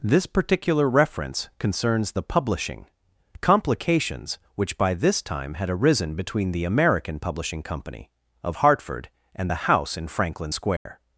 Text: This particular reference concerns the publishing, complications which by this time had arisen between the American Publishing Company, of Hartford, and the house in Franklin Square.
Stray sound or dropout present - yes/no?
yes